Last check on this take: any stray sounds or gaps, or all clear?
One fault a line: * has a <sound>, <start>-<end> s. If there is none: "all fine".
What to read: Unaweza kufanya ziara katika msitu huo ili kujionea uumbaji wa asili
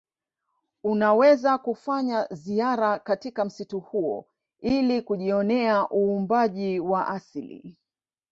all fine